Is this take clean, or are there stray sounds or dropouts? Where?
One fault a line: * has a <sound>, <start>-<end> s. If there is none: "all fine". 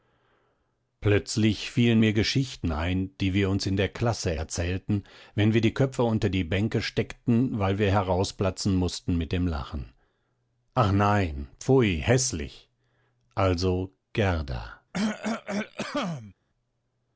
* has a cough, 14.9-16.3 s